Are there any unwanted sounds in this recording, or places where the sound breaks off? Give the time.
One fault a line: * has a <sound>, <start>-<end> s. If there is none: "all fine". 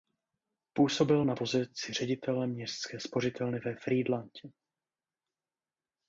all fine